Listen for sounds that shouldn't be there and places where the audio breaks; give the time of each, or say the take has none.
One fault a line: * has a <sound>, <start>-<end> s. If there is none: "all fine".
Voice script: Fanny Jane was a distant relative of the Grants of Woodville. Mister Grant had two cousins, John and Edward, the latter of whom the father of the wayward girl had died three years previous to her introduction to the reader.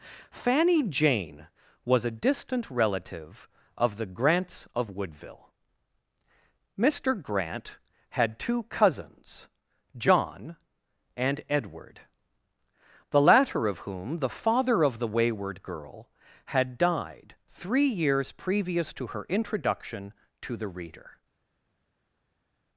all fine